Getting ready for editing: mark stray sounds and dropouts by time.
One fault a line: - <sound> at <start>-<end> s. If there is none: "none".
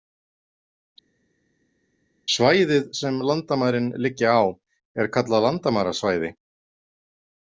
none